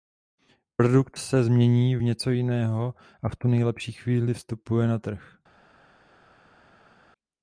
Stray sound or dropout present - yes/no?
no